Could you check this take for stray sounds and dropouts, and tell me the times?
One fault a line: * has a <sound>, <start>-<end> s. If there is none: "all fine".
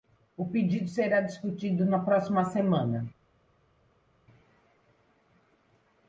all fine